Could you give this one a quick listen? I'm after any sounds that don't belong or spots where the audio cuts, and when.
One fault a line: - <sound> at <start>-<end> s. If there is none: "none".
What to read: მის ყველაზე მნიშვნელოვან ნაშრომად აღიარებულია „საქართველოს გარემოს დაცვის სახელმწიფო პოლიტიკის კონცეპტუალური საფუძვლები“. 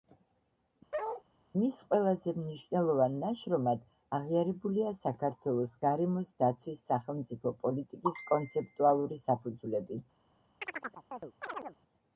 - bark at 0.9-1.2 s
- chirp at 10.6-11.8 s